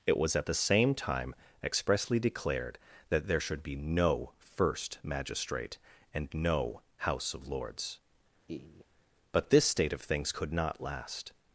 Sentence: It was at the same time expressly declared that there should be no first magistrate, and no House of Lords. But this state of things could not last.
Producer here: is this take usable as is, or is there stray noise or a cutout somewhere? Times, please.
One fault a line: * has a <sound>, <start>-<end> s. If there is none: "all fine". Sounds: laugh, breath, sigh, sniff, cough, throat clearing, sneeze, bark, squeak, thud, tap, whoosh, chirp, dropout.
* has a laugh, 8.5-8.9 s